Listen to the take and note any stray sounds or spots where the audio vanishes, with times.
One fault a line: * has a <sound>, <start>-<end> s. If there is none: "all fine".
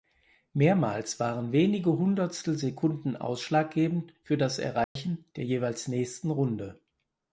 * has a dropout, 4.8-5.0 s